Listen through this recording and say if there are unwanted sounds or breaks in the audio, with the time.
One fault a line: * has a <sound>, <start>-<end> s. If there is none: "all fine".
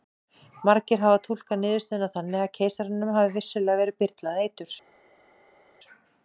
all fine